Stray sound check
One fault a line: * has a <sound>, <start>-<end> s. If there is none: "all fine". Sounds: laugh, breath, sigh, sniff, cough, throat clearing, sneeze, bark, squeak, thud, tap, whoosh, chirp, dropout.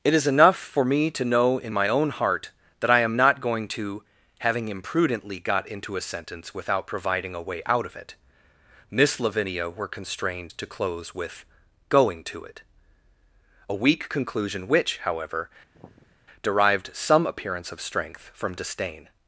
* has a sigh, 15.7-16.2 s